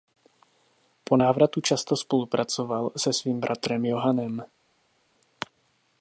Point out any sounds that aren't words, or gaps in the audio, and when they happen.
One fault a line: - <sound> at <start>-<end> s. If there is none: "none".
none